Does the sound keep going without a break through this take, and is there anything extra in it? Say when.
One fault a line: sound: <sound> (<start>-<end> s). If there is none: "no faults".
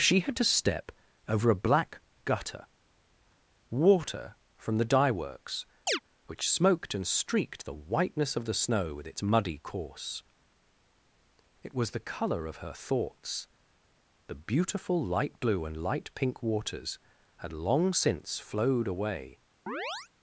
sound: chirp (5.9-6.0 s)
sound: chirp (19.7-20.1 s)